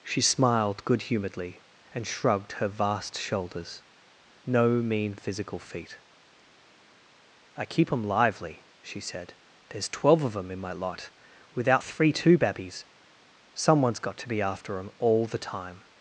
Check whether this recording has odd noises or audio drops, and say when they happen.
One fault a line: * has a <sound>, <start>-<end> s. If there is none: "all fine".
all fine